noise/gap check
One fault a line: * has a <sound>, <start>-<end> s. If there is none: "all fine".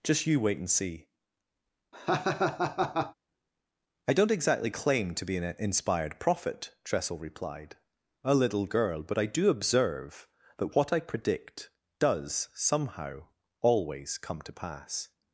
* has a laugh, 1.9-3.1 s